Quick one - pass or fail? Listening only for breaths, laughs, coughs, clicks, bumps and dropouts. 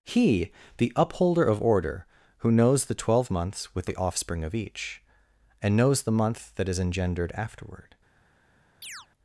fail